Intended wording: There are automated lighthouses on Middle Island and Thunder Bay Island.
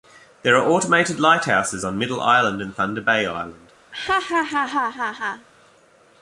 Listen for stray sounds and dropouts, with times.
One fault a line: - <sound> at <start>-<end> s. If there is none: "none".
- laugh at 3.9-5.5 s